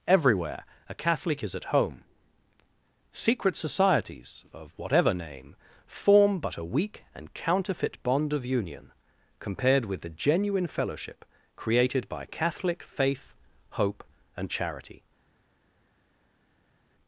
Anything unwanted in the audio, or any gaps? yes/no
no